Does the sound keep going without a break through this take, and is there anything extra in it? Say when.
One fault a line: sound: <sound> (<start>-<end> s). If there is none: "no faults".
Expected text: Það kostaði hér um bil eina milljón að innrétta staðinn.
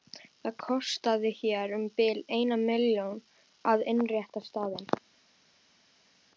no faults